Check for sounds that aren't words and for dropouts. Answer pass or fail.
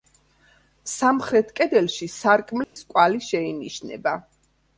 fail